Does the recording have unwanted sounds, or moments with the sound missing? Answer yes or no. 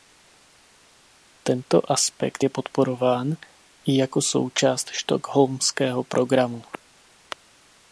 no